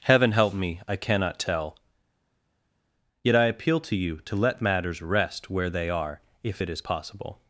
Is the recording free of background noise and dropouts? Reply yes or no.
yes